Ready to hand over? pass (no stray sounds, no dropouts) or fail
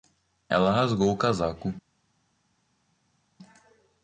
pass